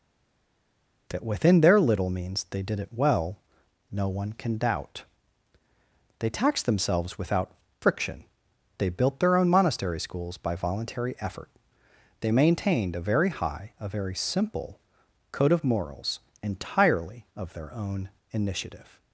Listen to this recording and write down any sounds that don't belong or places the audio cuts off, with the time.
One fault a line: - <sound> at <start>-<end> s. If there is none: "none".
none